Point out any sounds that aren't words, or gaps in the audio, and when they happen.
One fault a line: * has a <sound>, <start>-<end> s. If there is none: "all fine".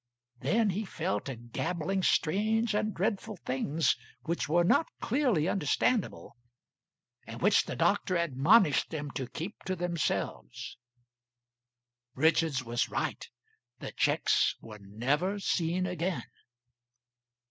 all fine